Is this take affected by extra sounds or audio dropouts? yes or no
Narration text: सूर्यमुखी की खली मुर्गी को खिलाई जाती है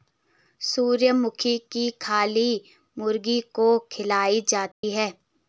yes